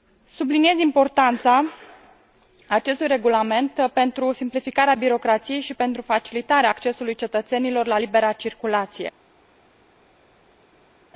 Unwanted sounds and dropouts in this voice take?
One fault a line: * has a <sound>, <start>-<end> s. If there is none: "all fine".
all fine